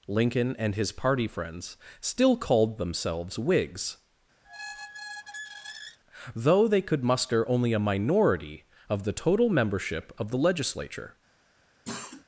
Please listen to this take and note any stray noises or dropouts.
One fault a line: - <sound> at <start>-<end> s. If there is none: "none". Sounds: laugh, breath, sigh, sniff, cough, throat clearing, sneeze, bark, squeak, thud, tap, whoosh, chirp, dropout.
- squeak at 4.4-6.0 s
- cough at 11.8-12.2 s